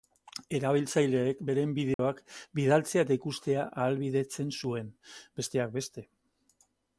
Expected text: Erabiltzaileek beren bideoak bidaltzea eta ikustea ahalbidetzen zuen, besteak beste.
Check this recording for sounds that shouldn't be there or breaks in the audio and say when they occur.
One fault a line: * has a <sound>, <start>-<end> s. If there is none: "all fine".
* has a dropout, 1.9-2.0 s